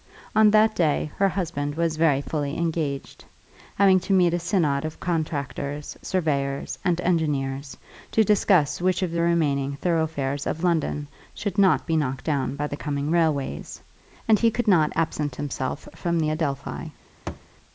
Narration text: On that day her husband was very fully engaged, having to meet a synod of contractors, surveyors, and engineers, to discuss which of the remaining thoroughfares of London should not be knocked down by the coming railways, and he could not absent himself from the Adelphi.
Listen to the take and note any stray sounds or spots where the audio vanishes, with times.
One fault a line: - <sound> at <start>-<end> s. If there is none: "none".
- thud at 17.3-17.5 s